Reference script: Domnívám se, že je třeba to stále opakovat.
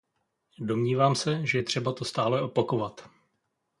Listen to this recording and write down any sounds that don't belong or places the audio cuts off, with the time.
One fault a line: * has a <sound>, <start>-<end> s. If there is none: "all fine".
all fine